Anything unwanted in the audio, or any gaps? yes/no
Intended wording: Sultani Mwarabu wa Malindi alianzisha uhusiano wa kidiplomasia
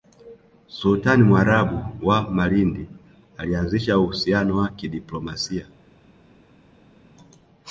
no